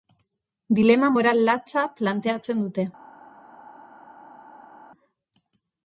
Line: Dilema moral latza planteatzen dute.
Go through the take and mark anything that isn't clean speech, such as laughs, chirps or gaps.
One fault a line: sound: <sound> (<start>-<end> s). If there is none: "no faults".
no faults